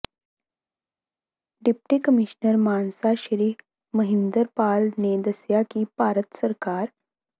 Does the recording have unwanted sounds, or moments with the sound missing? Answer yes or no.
no